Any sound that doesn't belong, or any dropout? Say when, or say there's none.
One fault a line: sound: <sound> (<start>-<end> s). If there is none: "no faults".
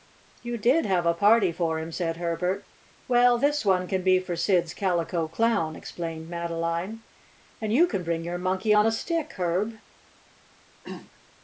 sound: throat clearing (10.8-11.1 s)